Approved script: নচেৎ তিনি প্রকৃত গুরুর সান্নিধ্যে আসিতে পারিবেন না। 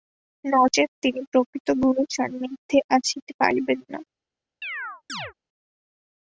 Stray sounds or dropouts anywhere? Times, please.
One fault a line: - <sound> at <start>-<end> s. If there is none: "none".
- chirp at 4.6-5.3 s